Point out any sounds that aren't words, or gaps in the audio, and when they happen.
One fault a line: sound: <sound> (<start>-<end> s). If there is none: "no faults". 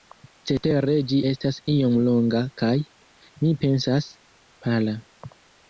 no faults